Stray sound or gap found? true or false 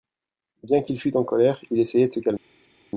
false